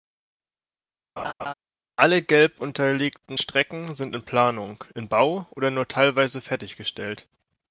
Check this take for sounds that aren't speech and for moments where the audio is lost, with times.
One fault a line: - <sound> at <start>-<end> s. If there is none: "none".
- laugh at 1.2-1.5 s